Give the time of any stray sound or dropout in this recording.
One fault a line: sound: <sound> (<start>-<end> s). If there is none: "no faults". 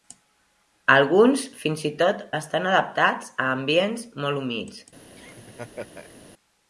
sound: laugh (5.2-6.1 s)